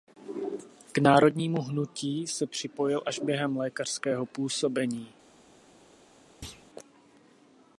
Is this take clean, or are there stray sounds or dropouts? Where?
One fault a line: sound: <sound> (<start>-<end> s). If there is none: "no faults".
sound: thud (6.4-6.7 s)